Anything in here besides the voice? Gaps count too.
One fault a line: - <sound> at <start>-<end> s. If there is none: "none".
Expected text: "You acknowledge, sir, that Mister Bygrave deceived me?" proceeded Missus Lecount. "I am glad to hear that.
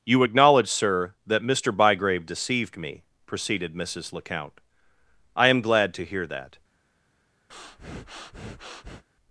- breath at 7.5-9.0 s